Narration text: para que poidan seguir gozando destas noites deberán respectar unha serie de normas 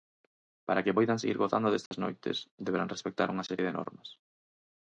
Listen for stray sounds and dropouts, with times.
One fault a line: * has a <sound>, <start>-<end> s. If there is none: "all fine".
* has a dropout, 1.9-1.9 s